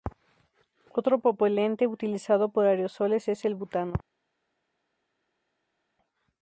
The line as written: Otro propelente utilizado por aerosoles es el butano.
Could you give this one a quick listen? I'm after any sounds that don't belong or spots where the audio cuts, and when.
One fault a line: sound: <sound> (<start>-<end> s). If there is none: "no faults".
no faults